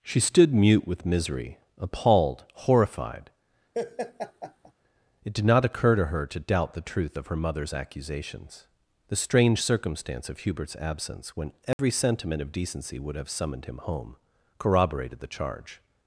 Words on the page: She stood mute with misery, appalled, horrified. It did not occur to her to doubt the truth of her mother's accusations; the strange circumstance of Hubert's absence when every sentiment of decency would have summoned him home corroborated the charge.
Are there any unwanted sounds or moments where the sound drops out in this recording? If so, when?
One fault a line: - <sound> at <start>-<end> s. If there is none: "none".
- laugh at 3.7-4.7 s
- dropout at 11.7-11.8 s